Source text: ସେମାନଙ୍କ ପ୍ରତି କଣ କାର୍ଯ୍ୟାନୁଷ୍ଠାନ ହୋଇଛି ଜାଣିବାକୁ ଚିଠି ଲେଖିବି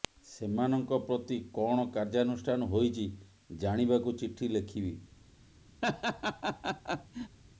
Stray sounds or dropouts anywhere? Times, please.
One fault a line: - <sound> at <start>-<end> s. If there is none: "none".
- laugh at 5.8-7.4 s